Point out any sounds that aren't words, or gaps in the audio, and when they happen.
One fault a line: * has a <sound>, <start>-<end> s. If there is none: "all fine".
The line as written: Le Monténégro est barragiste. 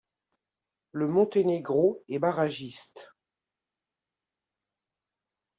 all fine